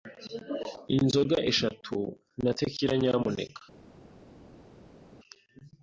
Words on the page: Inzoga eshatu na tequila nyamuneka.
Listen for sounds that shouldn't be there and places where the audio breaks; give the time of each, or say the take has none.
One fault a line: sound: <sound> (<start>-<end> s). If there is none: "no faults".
no faults